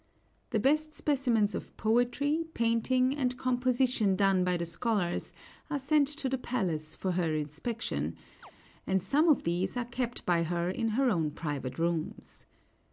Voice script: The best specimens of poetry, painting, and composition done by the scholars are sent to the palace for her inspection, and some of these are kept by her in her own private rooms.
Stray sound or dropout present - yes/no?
yes